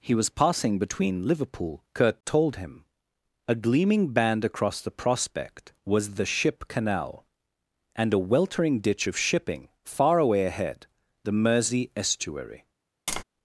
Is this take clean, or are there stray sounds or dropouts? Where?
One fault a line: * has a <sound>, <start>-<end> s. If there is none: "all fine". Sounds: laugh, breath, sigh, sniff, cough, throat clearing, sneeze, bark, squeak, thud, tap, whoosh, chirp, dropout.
* has a tap, 13.1-13.2 s